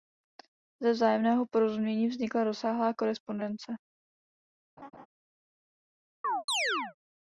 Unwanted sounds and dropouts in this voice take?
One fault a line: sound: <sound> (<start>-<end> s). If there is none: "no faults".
sound: laugh (4.8-5.1 s)
sound: chirp (6.2-6.9 s)